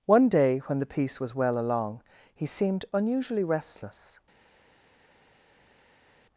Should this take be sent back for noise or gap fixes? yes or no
no